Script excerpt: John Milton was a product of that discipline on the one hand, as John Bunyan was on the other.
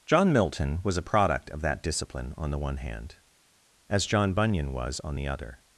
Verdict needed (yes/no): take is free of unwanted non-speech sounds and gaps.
yes